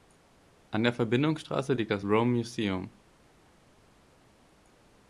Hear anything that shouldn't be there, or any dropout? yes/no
no